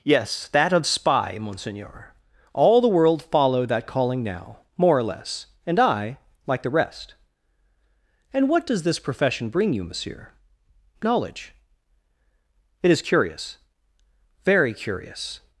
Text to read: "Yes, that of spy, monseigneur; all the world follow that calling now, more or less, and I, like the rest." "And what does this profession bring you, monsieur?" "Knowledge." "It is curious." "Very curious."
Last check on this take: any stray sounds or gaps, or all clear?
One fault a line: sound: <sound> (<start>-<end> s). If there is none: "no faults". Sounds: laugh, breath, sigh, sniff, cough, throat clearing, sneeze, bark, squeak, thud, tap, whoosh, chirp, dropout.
no faults